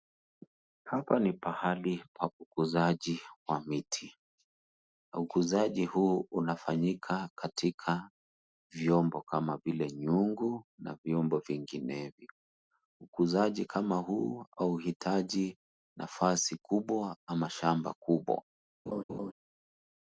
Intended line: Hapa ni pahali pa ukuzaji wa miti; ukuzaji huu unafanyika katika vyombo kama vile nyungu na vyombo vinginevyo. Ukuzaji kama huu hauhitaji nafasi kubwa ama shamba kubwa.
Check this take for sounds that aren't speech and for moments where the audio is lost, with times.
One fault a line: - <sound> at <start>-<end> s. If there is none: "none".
- laugh at 18.9-19.3 s